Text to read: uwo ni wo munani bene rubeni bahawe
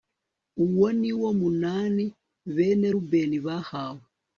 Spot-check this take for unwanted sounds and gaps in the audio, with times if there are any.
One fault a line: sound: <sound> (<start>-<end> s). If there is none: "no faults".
no faults